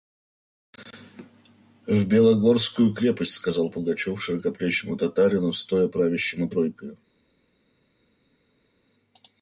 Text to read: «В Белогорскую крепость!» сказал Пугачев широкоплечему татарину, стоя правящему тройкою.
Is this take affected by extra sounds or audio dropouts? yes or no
no